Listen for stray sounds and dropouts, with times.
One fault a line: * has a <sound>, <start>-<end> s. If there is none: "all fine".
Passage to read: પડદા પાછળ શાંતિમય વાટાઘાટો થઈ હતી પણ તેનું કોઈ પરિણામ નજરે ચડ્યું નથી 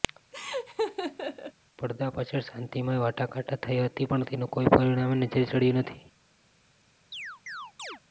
* has a laugh, 0.3-1.5 s
* has a chirp, 7.1-8.0 s